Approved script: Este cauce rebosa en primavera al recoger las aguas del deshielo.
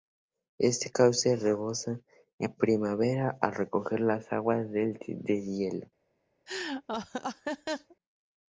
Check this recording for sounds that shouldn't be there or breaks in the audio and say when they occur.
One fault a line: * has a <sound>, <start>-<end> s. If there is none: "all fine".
* has a laugh, 6.5-8.0 s